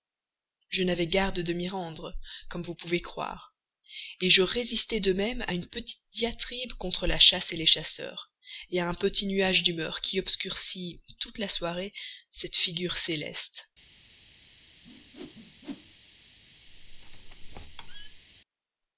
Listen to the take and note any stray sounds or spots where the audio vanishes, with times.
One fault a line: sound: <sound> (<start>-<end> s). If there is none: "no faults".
sound: whoosh (14.8-16.0 s)
sound: squeak (16.7-18.2 s)